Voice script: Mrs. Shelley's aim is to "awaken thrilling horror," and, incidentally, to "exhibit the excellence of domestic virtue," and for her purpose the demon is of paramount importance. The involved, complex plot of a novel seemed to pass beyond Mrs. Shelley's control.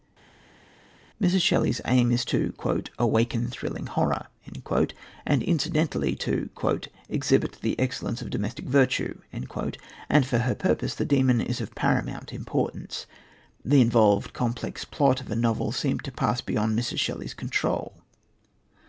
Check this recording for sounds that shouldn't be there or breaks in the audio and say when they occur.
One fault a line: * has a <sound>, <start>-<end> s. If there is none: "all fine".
all fine